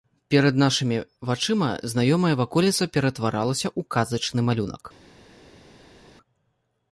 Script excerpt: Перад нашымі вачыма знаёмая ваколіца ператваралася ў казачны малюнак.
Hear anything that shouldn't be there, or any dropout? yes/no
no